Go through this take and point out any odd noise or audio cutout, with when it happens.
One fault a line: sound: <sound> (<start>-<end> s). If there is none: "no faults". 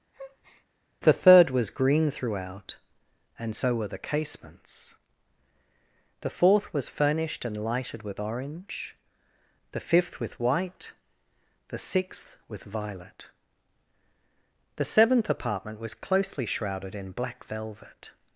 sound: breath (0.1-0.7 s)